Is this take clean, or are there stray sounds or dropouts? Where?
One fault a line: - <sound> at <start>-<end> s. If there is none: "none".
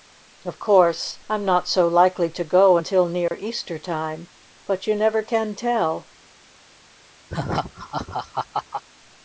- dropout at 3.3-3.3 s
- laugh at 7.3-8.8 s